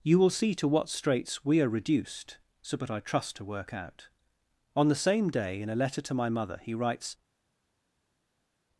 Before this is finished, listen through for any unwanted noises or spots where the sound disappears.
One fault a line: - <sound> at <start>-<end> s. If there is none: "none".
none